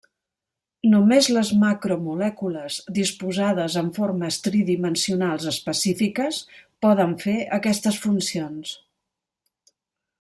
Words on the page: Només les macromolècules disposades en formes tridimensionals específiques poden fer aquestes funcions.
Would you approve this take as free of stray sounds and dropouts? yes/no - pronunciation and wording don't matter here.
yes